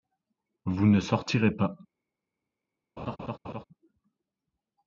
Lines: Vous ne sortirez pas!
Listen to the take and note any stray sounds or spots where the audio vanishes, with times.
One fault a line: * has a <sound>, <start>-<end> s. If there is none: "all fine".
* has a laugh, 3.0-3.6 s